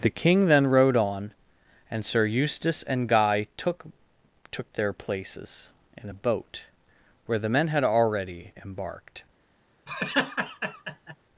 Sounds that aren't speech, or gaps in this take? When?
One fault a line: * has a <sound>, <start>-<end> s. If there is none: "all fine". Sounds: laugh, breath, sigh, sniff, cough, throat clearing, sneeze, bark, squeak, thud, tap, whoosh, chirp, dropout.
* has a laugh, 9.9-11.2 s